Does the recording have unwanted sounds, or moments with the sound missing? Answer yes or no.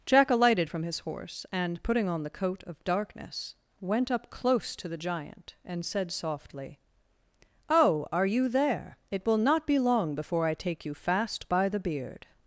no